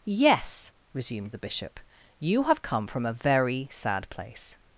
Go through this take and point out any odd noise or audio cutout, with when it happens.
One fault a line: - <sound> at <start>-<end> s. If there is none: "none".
none